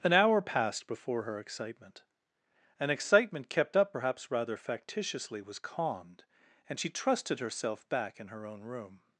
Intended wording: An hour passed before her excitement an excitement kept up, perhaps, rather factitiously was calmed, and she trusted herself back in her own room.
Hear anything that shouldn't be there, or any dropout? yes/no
no